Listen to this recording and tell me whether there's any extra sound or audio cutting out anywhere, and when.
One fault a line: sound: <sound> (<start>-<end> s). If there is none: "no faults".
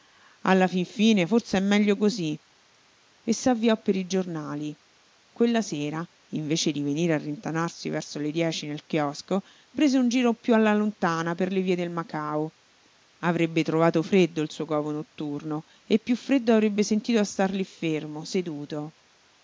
no faults